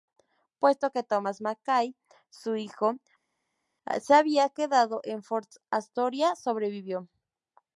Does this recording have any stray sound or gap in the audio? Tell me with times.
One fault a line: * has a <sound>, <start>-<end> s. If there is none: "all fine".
all fine